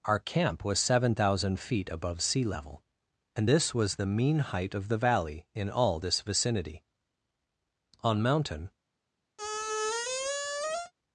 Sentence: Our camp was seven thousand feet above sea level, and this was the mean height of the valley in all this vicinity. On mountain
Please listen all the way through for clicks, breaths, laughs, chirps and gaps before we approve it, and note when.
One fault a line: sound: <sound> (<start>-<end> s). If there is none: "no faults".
sound: squeak (9.4-10.9 s)